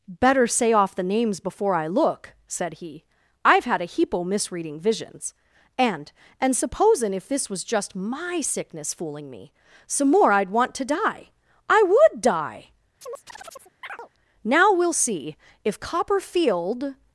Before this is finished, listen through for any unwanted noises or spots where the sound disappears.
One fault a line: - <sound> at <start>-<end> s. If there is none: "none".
- chirp at 13.0-14.1 s